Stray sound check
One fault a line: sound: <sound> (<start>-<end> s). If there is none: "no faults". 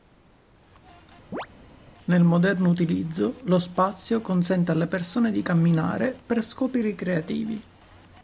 sound: chirp (1.3-1.5 s)